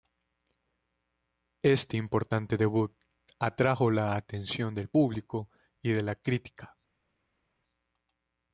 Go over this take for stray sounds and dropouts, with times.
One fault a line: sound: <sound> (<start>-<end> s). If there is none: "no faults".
no faults